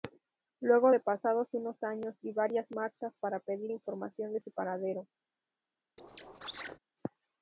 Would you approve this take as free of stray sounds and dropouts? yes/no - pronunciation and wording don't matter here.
no